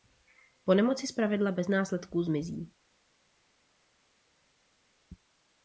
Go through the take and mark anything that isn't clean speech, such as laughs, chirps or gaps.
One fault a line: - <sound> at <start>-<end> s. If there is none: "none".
none